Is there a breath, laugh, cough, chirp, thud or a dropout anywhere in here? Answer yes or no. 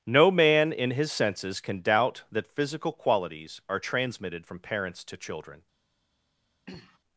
yes